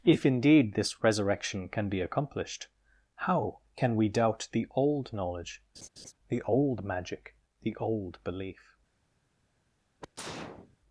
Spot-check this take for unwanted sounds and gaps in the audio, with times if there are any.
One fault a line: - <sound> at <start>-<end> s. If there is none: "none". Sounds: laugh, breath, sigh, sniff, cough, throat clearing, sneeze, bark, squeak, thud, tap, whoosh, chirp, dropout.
- laugh at 5.7-6.1 s
- sneeze at 10.0-10.8 s